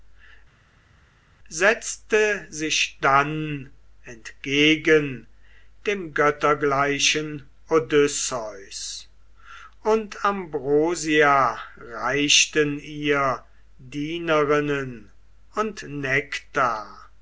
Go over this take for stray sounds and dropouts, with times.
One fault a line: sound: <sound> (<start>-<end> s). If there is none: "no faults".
no faults